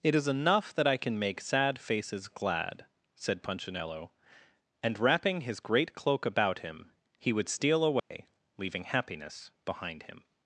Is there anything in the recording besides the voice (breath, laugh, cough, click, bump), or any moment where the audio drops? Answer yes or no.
yes